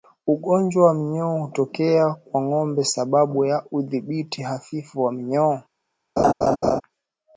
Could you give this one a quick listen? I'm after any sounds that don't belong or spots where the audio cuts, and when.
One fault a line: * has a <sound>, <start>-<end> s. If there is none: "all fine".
* has a laugh, 6.2-6.8 s